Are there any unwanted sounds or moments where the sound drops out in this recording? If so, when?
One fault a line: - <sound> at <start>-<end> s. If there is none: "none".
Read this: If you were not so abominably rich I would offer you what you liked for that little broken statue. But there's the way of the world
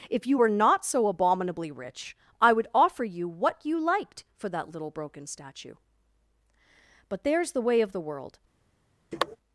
- sniff at 9.1-9.4 s